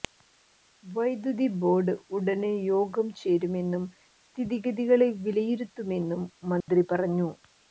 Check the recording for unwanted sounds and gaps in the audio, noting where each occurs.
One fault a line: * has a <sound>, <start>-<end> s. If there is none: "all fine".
* has a dropout, 6.6-6.7 s